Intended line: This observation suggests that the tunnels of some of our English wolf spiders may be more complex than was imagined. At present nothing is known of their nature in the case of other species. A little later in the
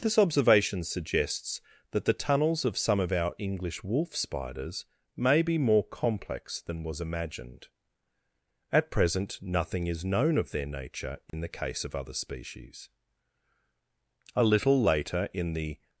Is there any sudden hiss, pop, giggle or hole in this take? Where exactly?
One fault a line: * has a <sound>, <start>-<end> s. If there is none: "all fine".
* has a dropout, 11.3-11.3 s